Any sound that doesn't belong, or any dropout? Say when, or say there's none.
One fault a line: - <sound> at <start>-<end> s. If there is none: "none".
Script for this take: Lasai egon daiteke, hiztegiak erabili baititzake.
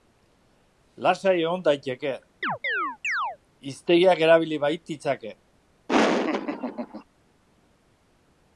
- chirp at 2.4-3.4 s
- laugh at 5.9-7.0 s